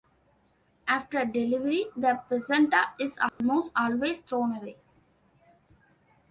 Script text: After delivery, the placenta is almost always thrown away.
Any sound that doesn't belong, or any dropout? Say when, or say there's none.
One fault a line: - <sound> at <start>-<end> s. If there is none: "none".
- dropout at 3.3-3.4 s